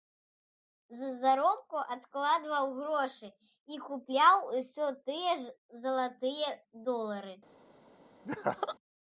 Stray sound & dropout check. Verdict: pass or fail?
fail